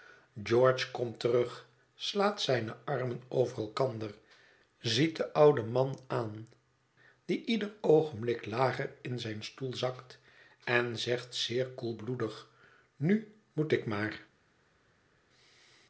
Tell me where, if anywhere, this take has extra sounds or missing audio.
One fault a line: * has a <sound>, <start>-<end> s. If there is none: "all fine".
all fine